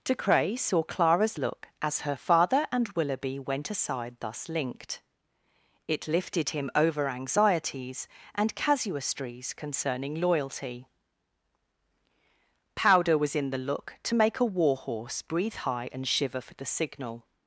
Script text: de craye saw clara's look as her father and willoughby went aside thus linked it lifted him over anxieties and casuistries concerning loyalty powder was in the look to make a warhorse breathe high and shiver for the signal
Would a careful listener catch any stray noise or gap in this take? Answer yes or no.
no